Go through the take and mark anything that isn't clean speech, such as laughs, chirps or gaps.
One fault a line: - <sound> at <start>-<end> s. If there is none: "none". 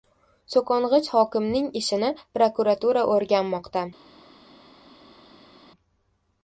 none